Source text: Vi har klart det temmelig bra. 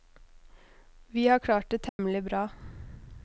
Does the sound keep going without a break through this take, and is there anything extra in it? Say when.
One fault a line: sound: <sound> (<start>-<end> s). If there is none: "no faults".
sound: dropout (1.9-2.0 s)